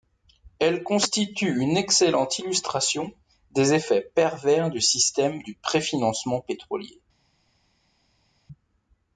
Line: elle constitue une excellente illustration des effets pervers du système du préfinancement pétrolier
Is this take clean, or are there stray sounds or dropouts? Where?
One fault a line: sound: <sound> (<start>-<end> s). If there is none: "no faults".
no faults